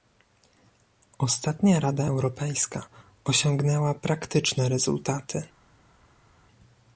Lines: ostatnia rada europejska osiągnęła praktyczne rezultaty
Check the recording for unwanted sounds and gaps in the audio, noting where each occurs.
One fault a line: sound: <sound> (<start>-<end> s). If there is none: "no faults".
no faults